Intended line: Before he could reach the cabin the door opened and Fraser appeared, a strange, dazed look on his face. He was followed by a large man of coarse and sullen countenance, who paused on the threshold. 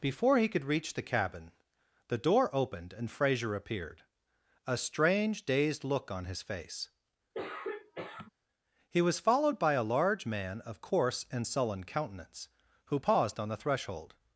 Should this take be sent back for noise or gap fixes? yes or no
yes